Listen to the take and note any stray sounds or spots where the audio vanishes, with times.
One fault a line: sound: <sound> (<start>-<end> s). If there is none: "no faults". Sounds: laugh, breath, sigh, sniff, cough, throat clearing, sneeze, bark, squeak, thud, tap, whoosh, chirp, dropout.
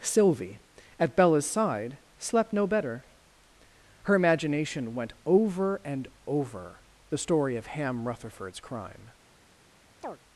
sound: chirp (10.0-10.2 s)